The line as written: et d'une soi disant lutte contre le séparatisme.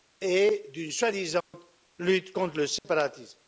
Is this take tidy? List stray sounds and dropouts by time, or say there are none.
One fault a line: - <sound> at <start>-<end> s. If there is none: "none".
- dropout at 1.4-1.5 s
- dropout at 2.8-2.8 s